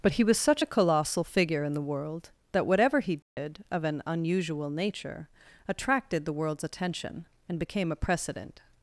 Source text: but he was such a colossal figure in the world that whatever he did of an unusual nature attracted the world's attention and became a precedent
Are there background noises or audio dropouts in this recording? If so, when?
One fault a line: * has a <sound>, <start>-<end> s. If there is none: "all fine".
* has a dropout, 3.2-3.4 s